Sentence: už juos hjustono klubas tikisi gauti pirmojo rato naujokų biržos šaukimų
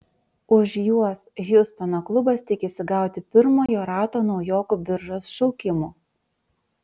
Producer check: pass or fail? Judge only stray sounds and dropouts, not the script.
fail